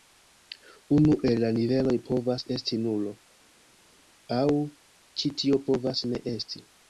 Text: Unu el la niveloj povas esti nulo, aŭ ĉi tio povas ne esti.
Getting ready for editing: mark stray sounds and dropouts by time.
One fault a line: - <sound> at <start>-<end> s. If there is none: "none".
none